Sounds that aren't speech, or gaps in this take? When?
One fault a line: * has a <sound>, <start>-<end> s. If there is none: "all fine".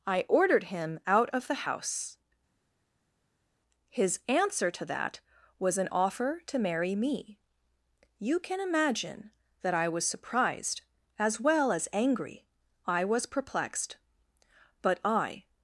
all fine